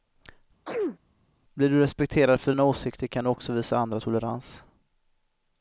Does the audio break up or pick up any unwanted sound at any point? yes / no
yes